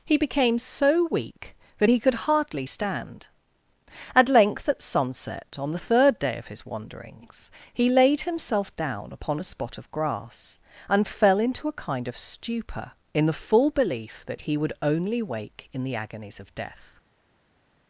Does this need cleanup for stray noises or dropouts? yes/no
no